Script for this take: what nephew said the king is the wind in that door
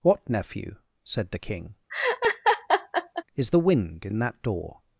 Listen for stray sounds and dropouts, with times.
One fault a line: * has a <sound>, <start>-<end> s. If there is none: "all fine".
* has a laugh, 1.9-3.2 s